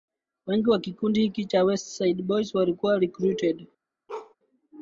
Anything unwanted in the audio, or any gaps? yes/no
yes